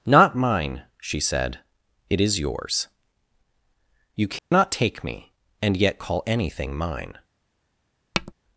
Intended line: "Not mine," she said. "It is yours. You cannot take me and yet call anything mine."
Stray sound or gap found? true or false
true